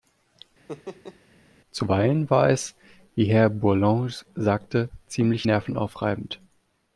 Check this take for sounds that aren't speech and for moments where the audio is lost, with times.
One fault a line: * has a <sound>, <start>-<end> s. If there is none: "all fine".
* has a laugh, 0.7-1.2 s